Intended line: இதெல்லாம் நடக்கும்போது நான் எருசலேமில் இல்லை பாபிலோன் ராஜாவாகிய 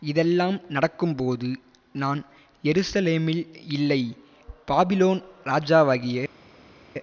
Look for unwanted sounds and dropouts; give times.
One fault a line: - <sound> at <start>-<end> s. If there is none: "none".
none